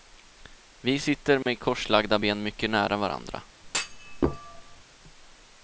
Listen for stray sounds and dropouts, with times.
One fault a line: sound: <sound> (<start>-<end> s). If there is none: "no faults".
sound: dropout (1.4-1.5 s)
sound: thud (3.6-4.8 s)